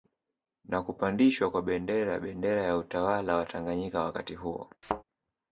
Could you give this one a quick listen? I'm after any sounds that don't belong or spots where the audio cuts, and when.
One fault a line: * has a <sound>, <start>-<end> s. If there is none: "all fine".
* has a thud, 4.8-5.0 s